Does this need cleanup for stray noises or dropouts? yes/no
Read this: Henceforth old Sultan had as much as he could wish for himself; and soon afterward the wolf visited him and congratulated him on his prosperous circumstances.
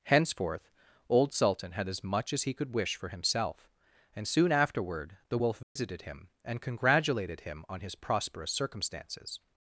yes